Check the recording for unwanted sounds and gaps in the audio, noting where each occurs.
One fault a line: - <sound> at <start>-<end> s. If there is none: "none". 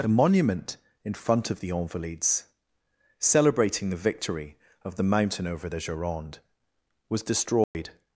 - dropout at 7.6-7.7 s